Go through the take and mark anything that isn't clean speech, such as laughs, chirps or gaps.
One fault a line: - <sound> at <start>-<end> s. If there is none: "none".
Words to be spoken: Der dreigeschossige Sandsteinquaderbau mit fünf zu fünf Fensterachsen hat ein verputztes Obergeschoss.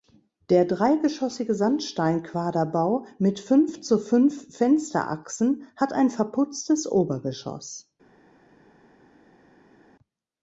none